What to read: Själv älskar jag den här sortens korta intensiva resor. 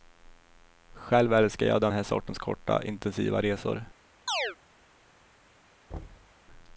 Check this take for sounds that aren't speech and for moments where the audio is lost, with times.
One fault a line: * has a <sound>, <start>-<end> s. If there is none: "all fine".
* has a chirp, 4.3-4.6 s
* has a thud, 5.9-6.3 s